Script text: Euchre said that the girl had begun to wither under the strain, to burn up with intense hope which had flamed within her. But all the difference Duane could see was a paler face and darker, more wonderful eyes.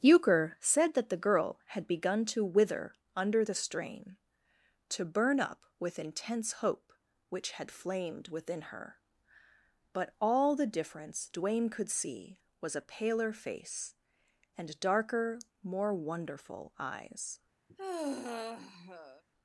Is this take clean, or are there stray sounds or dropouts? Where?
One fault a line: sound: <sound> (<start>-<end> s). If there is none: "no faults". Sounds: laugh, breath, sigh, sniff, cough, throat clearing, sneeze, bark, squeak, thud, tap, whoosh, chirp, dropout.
sound: sigh (17.7-19.2 s)